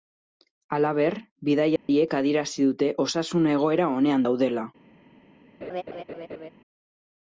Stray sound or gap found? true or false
true